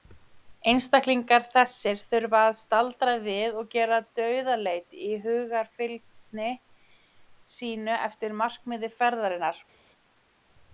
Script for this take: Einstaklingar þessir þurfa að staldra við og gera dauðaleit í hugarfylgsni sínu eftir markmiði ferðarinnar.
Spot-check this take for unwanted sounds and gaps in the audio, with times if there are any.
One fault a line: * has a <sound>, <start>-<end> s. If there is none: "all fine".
all fine